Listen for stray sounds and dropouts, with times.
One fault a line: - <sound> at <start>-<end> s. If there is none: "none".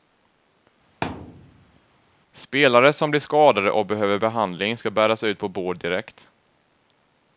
- thud at 1.0-1.8 s